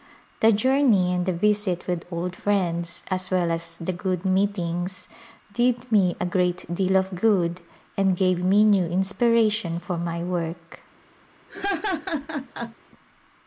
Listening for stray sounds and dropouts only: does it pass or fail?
fail